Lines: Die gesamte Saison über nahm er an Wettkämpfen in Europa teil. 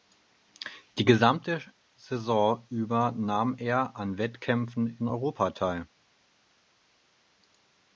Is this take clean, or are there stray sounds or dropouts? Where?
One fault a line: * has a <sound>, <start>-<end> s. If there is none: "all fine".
all fine